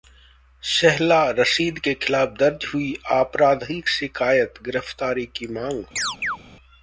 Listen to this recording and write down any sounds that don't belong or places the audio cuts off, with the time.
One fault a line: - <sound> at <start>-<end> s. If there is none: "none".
- chirp at 6.0-6.4 s